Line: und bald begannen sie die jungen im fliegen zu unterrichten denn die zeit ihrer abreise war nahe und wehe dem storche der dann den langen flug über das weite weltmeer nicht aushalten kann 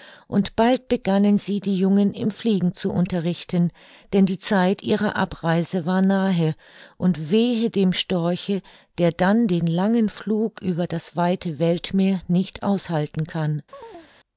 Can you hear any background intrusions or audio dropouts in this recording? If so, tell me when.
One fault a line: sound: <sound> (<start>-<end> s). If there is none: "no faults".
sound: chirp (13.7-14.1 s)